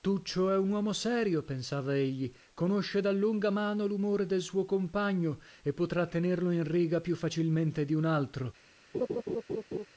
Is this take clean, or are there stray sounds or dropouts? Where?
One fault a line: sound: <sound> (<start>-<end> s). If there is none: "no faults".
sound: laugh (8.9-9.9 s)